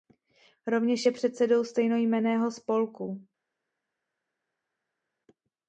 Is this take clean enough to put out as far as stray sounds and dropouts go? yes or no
yes